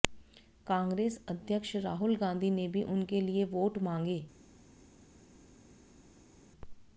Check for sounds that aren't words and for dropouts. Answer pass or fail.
pass